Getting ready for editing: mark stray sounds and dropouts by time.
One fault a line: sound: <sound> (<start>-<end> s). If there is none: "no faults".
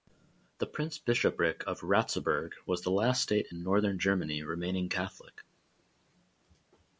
no faults